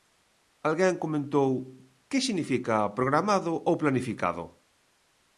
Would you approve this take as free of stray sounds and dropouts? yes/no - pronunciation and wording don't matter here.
yes